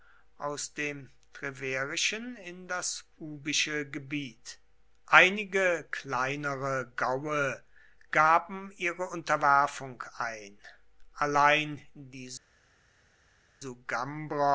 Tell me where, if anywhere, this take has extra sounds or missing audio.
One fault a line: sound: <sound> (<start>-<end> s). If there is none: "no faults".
no faults